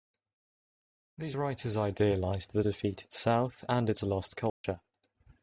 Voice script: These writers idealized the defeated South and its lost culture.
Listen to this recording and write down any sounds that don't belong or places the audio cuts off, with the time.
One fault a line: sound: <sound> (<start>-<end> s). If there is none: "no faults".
sound: dropout (4.5-4.6 s)